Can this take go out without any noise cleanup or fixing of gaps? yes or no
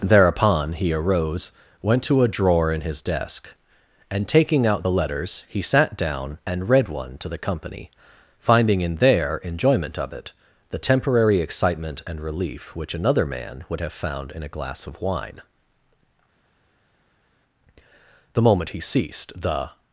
yes